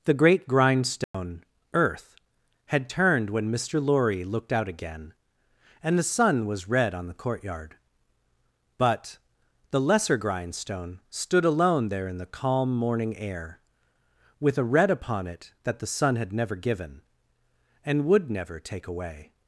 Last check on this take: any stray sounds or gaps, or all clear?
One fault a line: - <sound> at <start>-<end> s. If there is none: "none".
- dropout at 1.0-1.1 s